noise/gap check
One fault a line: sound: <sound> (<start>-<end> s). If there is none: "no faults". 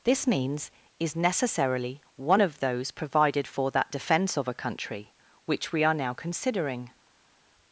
no faults